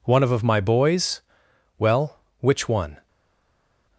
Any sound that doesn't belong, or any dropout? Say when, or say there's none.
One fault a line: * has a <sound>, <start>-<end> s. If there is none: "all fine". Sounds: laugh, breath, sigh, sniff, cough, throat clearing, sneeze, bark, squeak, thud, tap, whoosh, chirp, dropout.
all fine